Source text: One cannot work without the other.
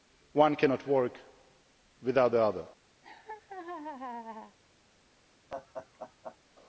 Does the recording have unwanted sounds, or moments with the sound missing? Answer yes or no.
yes